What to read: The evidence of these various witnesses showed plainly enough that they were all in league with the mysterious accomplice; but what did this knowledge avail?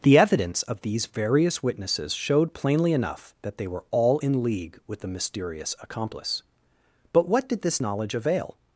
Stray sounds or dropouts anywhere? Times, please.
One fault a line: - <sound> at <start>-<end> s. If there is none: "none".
none